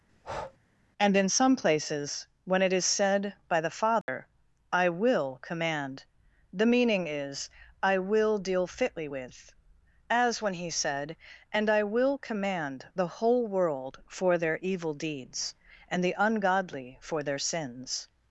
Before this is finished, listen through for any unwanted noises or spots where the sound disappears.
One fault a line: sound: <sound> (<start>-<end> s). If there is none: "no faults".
sound: breath (0.1-0.6 s)
sound: dropout (4.0-4.1 s)